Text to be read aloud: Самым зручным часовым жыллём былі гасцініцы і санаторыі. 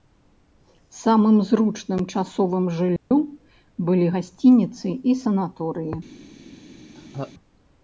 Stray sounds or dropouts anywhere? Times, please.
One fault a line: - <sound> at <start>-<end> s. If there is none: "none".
- dropout at 3.0-3.1 s
- laugh at 6.9-7.3 s